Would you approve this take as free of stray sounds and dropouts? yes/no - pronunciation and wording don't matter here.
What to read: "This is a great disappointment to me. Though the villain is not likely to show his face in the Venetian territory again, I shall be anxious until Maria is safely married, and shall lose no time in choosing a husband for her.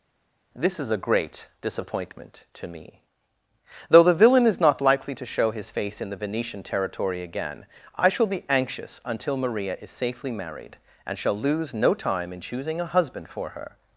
yes